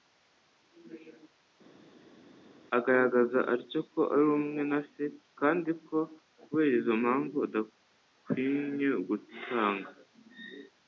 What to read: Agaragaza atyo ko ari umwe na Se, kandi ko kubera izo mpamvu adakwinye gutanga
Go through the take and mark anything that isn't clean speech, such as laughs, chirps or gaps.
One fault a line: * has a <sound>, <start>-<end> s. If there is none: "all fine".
all fine